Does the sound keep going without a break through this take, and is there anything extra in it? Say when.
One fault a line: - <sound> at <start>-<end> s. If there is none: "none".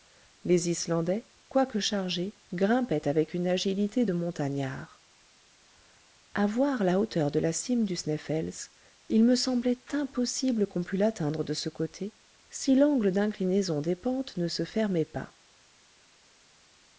none